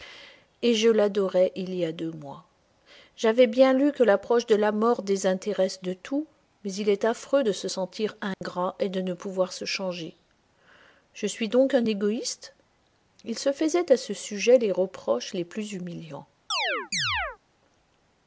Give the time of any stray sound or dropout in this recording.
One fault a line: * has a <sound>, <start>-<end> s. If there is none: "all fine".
* has a dropout, 8.3-8.4 s
* has a chirp, 16.5-17.4 s